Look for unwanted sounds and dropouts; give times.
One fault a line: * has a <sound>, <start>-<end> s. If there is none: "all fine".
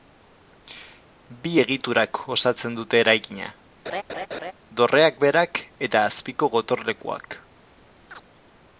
* has a laugh, 3.9-4.5 s
* has a chirp, 8.1-8.2 s